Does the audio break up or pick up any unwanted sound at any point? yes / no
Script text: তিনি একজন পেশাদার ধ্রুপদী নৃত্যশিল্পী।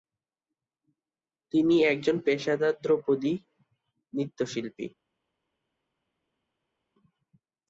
no